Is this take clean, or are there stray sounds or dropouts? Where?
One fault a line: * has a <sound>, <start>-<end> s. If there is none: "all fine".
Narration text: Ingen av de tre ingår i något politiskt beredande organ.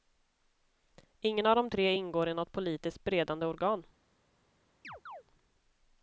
* has a chirp, 4.8-5.2 s